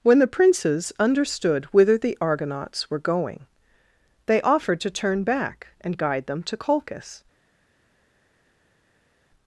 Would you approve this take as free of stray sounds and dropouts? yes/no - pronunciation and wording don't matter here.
yes